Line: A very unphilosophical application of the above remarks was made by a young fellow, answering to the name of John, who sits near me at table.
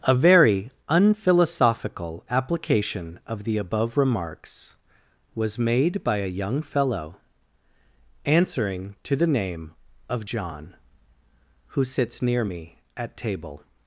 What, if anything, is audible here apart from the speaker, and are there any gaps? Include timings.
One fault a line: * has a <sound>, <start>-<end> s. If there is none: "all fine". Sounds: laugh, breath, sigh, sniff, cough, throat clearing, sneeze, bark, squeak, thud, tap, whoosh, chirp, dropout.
all fine